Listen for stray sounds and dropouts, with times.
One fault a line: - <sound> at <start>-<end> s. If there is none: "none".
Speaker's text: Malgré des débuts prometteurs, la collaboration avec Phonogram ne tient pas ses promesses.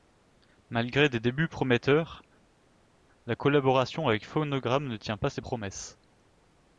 none